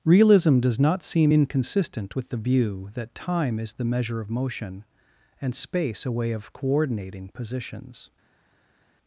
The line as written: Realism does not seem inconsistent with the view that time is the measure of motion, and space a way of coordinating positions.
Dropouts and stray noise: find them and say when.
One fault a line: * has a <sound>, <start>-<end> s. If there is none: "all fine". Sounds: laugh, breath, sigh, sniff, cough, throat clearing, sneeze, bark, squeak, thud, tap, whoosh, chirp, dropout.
all fine